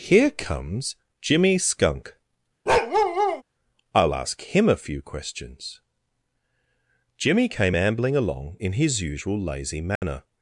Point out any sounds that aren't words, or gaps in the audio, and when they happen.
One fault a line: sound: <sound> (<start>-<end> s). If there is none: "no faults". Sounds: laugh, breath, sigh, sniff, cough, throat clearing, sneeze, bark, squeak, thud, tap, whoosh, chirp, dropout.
sound: bark (2.7-3.4 s)
sound: dropout (10.0-10.0 s)